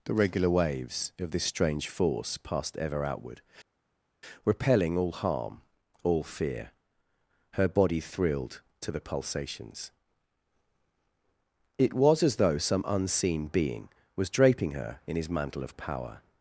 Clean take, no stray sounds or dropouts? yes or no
yes